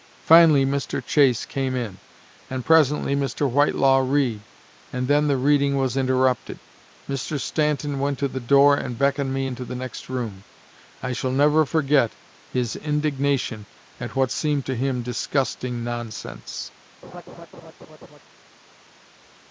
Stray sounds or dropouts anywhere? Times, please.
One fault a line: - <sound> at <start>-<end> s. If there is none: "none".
- laugh at 17.0-18.2 s